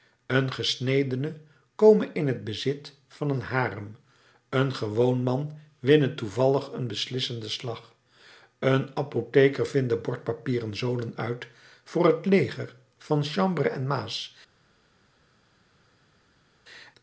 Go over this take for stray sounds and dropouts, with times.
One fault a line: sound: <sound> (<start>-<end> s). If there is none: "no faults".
no faults